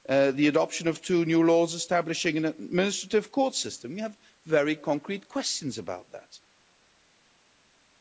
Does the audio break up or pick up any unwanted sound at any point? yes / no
no